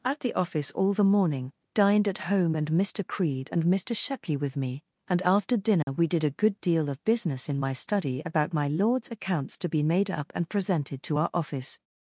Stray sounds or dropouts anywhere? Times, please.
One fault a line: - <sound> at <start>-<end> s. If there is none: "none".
- dropout at 5.8-5.9 s